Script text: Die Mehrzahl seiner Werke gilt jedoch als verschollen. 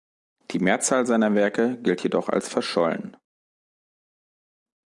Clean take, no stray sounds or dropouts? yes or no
yes